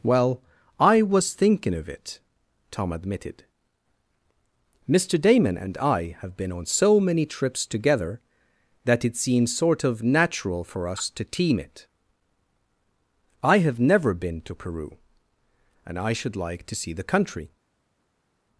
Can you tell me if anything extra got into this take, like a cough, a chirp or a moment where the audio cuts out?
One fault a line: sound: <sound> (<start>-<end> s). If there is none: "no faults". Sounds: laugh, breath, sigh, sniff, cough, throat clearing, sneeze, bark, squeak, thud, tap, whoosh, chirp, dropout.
no faults